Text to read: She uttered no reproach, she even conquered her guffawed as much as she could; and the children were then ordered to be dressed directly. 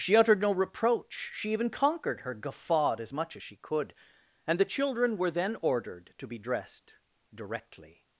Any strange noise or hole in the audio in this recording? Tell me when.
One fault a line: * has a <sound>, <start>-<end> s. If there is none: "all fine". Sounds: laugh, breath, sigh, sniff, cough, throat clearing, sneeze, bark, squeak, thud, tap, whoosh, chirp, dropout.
all fine